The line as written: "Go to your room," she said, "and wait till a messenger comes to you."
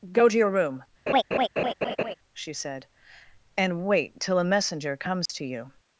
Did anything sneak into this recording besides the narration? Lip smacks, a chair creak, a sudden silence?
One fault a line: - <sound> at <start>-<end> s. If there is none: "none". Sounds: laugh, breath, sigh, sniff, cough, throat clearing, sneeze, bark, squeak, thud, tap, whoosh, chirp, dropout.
- laugh at 1.1-2.1 s
- dropout at 5.3-5.3 s